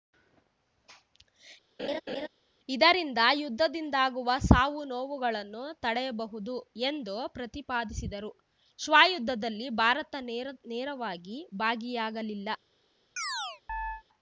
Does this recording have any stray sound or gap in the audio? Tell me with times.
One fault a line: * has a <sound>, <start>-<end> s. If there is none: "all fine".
* has a laugh, 1.8-2.3 s
* has a chirp, 13.2-14.0 s